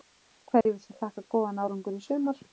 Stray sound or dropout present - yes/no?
yes